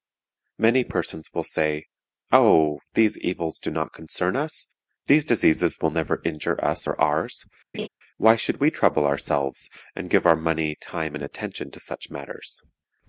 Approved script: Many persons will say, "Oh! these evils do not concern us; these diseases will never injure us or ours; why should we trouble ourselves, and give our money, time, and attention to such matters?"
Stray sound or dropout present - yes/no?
yes